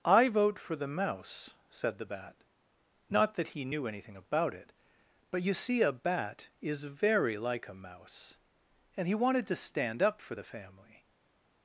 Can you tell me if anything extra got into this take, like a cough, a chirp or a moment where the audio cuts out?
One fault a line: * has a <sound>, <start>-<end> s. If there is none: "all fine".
all fine